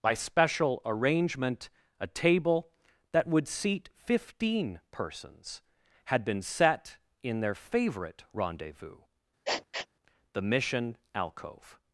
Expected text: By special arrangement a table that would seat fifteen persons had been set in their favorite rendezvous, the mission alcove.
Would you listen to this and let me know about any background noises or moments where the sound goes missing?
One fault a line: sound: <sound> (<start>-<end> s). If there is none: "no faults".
sound: sniff (9.5-9.9 s)